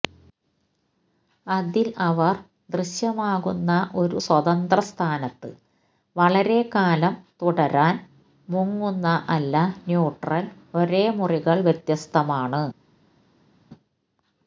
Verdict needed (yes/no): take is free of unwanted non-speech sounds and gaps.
yes